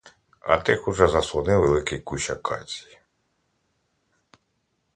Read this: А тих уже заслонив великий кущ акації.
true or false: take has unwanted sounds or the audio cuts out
false